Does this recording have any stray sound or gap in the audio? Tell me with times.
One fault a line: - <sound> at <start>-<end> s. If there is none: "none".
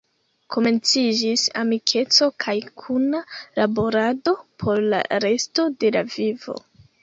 none